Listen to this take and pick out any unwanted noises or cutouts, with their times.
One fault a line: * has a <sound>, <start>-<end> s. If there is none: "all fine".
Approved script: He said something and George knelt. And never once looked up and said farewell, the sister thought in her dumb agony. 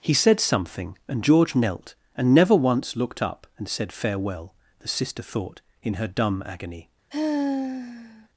* has a sigh, 7.1-8.3 s